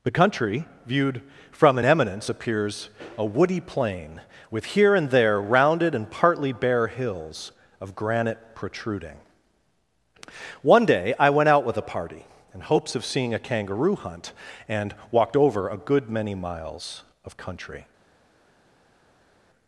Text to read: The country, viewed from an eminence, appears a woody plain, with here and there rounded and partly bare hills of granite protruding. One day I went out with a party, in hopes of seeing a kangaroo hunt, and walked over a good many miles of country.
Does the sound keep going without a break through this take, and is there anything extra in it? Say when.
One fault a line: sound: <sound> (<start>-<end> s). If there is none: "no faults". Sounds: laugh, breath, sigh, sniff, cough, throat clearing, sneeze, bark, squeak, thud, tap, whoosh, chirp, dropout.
no faults